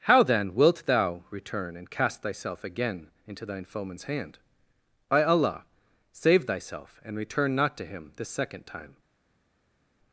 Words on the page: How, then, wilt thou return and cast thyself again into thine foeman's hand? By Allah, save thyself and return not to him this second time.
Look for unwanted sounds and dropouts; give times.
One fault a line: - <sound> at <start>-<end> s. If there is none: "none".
none